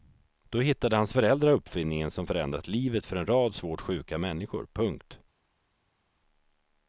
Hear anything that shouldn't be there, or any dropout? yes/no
no